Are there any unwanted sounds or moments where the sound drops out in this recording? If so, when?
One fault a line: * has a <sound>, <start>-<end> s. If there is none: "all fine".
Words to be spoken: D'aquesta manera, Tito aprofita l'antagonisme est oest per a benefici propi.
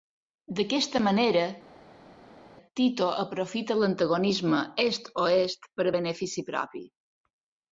all fine